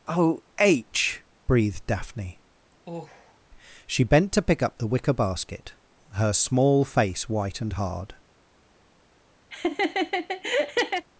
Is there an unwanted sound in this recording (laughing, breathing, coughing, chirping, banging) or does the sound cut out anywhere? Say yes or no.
yes